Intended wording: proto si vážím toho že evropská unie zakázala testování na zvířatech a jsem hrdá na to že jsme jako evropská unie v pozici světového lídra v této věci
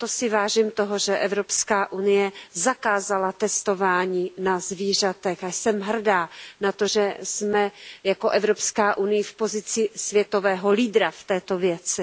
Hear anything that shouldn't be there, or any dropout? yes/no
no